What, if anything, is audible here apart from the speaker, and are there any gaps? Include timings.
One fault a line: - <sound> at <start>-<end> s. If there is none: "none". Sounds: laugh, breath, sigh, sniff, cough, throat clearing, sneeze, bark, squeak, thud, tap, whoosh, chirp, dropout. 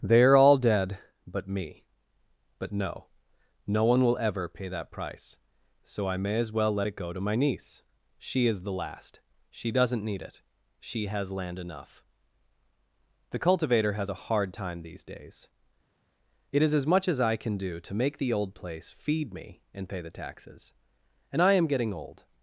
none